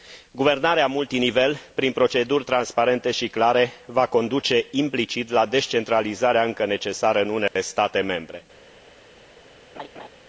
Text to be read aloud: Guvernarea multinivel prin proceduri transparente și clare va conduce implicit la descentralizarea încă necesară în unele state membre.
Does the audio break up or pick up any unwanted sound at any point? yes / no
yes